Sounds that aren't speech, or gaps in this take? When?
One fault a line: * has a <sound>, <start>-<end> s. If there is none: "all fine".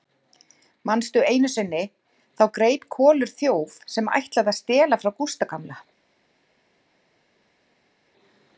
all fine